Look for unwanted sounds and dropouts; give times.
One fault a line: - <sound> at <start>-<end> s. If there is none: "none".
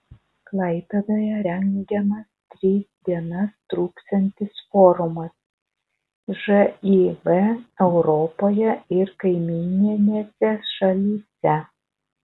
none